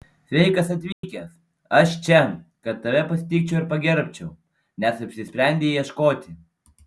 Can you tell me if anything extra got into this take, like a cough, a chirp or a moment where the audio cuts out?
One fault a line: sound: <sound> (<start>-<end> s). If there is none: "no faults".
sound: dropout (0.9-1.0 s)